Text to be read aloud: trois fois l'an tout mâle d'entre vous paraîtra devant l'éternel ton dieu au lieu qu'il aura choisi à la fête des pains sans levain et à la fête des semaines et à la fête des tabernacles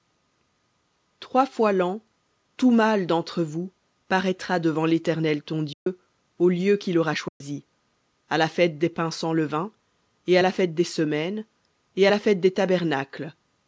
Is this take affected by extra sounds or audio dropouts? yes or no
yes